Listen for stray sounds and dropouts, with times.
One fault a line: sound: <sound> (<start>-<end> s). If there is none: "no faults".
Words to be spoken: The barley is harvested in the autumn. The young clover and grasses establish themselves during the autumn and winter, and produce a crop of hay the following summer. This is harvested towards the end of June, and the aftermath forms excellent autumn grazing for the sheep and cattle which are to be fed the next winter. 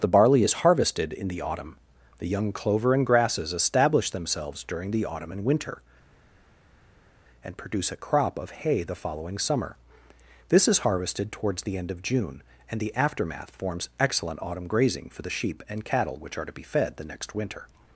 no faults